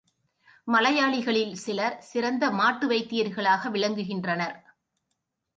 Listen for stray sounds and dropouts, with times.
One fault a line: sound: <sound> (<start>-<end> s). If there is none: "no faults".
no faults